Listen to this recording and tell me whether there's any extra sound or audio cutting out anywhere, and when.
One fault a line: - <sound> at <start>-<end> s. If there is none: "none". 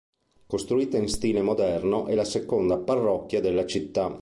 none